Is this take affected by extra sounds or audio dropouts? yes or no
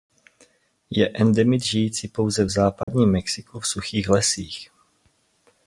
yes